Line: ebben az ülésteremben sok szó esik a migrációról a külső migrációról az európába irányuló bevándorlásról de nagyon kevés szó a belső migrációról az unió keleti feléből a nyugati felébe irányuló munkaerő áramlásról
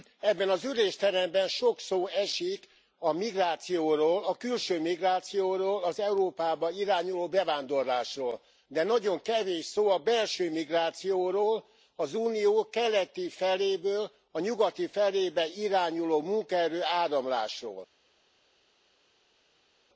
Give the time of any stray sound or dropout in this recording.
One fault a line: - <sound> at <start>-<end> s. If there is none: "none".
none